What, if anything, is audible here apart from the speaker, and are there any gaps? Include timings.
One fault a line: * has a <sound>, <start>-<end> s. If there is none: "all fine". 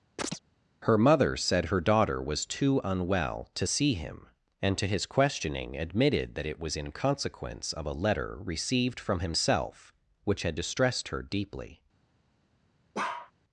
* has a chirp, 0.2-0.4 s
* has a bark, 12.9-13.3 s